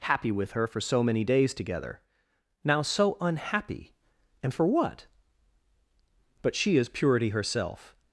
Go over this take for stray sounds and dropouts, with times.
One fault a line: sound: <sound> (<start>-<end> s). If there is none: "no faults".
no faults